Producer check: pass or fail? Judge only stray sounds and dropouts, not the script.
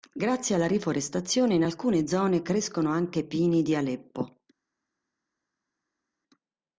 pass